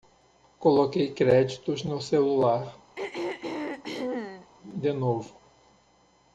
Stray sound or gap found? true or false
true